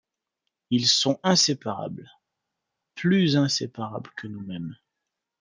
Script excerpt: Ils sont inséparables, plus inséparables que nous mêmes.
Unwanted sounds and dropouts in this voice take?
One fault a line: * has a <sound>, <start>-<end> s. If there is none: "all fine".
all fine